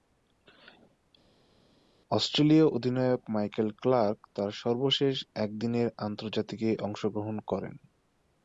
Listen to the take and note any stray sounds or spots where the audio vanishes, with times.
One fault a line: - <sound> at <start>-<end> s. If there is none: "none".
none